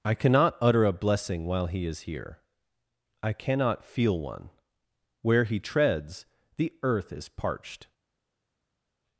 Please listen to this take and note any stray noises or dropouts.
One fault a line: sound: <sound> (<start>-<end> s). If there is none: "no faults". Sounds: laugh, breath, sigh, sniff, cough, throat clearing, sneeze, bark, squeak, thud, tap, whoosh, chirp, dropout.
no faults